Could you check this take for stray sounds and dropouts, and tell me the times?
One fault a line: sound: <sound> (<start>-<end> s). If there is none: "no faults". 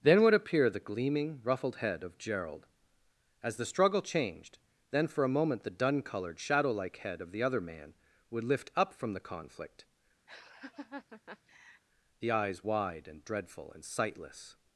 sound: laugh (10.3-11.8 s)